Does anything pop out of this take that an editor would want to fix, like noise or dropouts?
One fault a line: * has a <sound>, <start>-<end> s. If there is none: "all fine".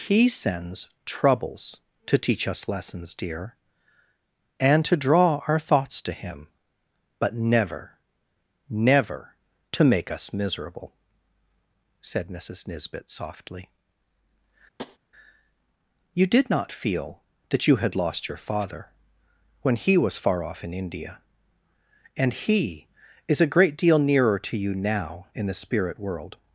* has a tap, 14.8-15.0 s